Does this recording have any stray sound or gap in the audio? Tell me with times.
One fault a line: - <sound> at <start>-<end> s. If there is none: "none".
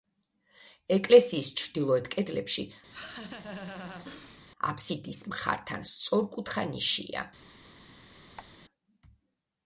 - laugh at 2.9-4.4 s
- squeak at 8.4-8.5 s